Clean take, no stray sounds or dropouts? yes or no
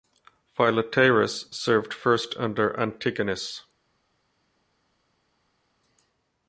yes